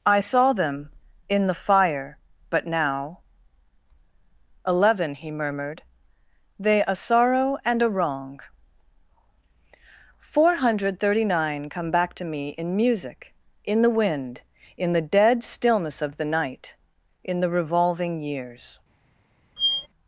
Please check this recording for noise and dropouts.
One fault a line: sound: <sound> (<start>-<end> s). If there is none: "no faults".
sound: squeak (19.6-19.9 s)